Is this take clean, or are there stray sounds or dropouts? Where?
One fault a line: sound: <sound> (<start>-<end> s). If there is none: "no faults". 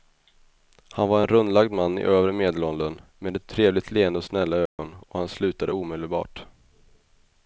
sound: dropout (4.7-4.8 s)